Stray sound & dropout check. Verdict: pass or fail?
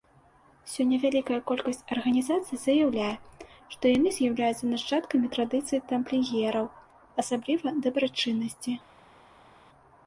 pass